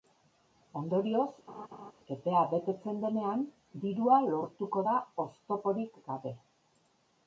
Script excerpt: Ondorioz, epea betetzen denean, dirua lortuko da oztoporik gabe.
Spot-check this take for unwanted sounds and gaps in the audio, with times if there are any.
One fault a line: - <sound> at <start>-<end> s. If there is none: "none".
- laugh at 1.5-1.9 s